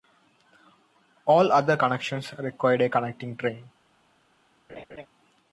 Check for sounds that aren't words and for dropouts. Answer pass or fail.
fail